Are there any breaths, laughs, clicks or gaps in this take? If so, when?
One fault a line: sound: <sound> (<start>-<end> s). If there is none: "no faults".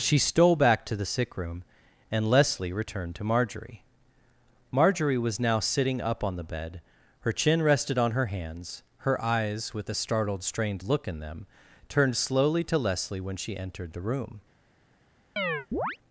sound: chirp (15.4-16.0 s)